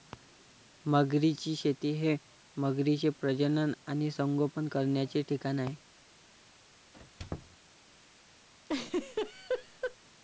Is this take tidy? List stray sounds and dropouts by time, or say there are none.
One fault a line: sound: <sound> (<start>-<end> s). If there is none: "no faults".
sound: squeak (6.9-7.6 s)
sound: laugh (8.7-10.0 s)